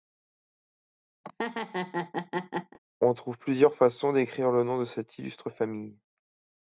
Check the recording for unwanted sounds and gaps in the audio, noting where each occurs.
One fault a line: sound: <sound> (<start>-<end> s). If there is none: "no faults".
sound: laugh (1.2-2.8 s)